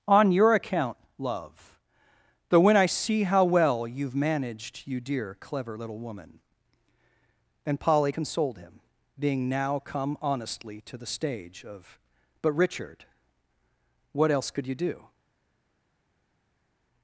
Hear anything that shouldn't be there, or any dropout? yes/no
no